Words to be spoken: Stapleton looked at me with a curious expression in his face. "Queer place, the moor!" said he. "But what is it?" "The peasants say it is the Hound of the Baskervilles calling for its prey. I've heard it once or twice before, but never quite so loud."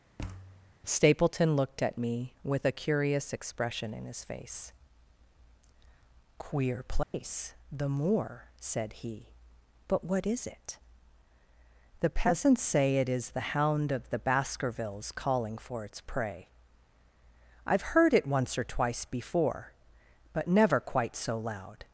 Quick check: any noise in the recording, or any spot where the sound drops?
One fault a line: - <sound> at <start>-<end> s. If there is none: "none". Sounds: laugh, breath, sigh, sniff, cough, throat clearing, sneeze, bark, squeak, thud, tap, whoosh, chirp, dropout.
- thud at 0.2-0.7 s
- dropout at 7.0-7.1 s